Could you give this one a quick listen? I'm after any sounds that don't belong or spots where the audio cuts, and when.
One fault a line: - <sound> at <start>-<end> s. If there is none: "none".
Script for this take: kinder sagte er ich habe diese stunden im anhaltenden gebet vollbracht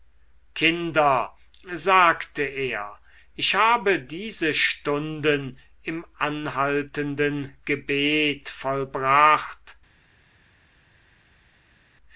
none